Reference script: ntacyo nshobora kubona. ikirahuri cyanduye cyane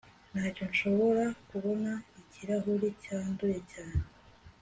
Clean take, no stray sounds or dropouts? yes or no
yes